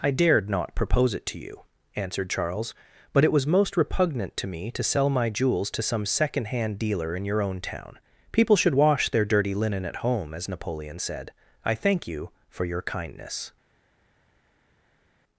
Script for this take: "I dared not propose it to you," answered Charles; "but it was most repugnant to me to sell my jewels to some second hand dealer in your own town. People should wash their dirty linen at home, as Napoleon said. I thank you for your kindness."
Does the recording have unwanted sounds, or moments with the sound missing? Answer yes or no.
no